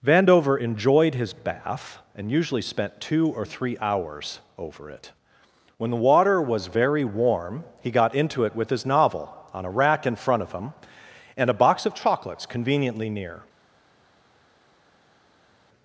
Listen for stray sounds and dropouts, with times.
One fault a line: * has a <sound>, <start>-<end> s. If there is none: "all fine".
all fine